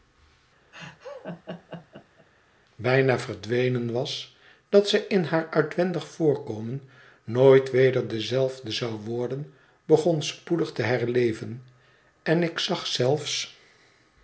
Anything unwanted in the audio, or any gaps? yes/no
yes